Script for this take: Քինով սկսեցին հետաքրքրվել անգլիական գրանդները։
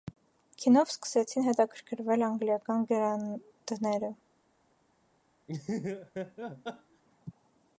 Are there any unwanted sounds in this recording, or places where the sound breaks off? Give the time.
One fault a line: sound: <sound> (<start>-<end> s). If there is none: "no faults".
sound: laugh (5.5-7.0 s)